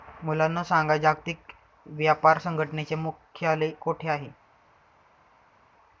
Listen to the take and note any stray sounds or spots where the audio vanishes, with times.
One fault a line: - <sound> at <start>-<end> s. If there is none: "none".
none